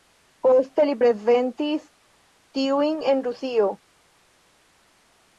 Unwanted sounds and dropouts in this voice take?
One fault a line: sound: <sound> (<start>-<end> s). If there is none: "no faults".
no faults